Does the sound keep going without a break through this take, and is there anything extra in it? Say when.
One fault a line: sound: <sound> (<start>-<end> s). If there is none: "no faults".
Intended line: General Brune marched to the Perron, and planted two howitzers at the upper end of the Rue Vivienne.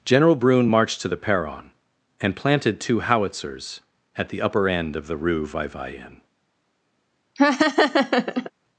sound: laugh (7.4-8.5 s)